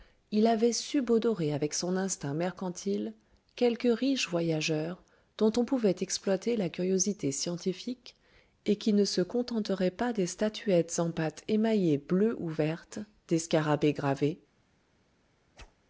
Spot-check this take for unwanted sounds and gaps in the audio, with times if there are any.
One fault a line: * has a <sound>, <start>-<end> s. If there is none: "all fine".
* has a whoosh, 15.6-15.7 s